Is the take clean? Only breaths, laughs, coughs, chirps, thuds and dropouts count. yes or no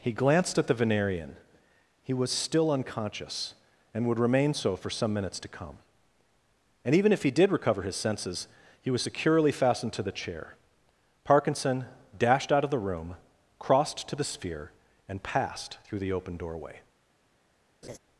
no